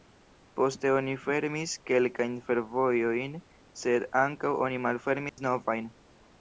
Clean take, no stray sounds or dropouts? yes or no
no